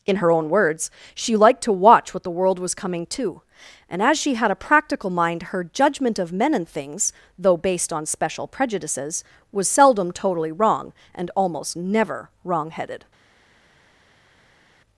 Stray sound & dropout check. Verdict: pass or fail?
pass